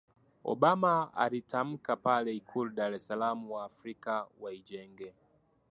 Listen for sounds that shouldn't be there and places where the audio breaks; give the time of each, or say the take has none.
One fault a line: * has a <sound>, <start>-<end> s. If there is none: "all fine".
all fine